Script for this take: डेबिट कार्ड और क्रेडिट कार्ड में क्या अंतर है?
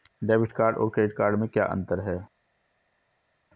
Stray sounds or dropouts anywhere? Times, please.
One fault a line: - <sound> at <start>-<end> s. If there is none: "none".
none